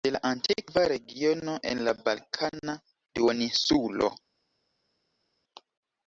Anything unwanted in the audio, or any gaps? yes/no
no